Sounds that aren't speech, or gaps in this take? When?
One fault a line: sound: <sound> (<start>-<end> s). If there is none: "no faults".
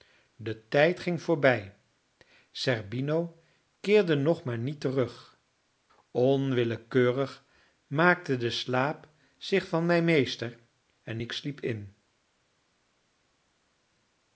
no faults